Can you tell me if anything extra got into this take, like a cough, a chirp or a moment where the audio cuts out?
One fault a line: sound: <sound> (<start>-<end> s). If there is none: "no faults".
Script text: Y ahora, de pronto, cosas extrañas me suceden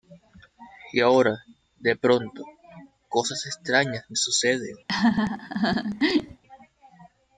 sound: laugh (4.9-6.4 s)